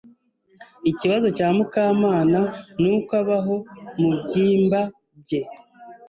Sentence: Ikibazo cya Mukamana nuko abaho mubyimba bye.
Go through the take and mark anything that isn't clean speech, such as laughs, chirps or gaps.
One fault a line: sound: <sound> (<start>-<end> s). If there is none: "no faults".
no faults